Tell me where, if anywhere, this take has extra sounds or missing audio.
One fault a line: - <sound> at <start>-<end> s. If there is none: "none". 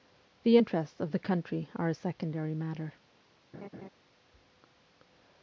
- laugh at 3.5-3.9 s